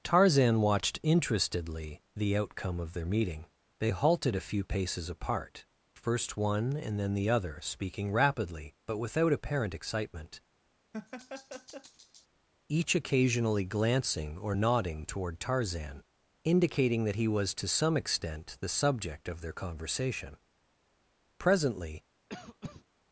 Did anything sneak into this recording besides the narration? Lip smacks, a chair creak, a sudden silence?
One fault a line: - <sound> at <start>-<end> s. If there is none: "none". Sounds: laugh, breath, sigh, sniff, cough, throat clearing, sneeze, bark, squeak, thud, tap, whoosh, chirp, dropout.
- laugh at 10.9-12.3 s
- cough at 22.3-22.8 s